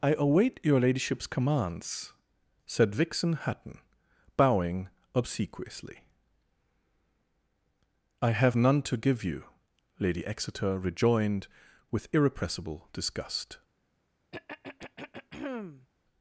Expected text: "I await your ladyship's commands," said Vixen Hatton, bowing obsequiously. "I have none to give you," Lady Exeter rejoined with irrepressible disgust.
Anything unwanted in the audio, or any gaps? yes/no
yes